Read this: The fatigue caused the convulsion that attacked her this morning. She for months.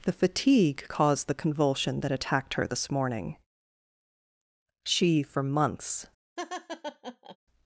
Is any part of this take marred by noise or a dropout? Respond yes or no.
yes